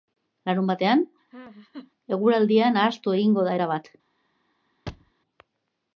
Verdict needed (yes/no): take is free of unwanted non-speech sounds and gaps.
no